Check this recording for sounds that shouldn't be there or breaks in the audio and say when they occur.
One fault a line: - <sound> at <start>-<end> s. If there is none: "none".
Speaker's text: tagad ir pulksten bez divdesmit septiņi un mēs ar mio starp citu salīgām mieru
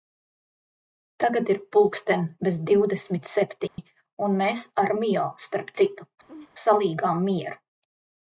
- dropout at 3.7-3.8 s
- laugh at 6.3-6.5 s